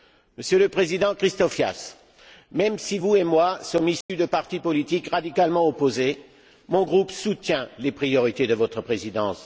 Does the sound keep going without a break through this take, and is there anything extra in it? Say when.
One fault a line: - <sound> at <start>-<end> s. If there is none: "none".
- dropout at 4.0-4.1 s